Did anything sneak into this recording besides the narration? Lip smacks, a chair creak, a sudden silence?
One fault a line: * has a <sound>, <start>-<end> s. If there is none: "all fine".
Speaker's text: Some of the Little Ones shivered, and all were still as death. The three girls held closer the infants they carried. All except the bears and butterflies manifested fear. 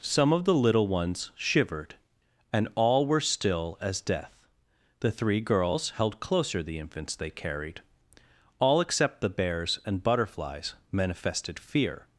all fine